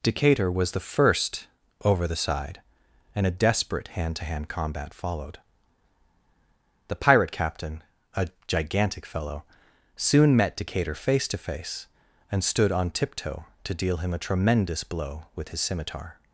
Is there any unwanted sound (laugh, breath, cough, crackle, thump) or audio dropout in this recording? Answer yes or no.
no